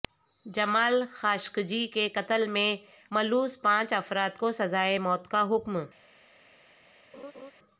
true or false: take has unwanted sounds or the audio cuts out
true